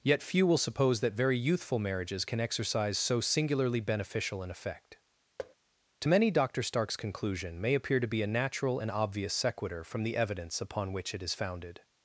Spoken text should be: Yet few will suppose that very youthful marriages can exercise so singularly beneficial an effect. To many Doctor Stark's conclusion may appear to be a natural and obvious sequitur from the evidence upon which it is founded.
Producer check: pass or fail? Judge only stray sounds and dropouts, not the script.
fail